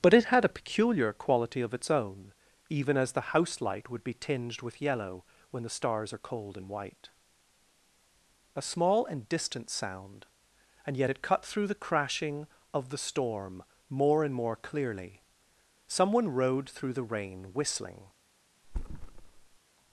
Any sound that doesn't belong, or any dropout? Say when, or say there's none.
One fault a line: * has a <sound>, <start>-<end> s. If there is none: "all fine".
* has a thud, 18.6-19.6 s